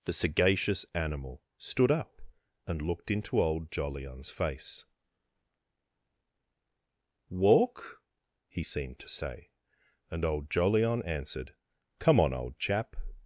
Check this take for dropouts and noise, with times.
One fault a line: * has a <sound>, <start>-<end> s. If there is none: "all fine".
all fine